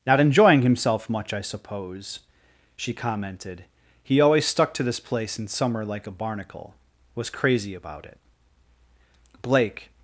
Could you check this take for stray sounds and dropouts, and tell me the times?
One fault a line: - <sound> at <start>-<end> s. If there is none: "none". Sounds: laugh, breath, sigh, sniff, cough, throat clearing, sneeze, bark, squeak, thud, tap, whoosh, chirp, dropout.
none